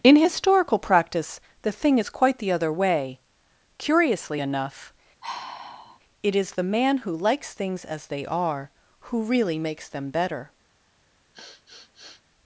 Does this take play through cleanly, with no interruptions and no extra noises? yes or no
no